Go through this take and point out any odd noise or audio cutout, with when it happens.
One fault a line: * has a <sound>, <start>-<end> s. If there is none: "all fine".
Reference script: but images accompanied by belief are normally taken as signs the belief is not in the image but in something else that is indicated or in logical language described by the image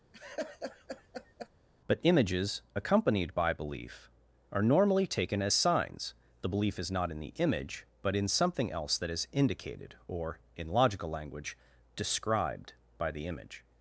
* has a laugh, 0.1-1.5 s